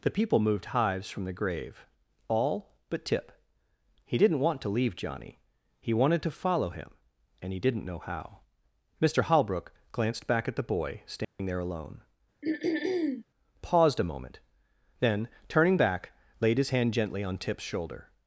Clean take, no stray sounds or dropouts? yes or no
no